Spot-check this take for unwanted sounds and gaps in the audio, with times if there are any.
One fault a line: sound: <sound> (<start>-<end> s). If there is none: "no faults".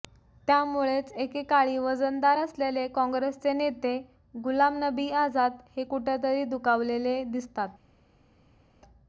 no faults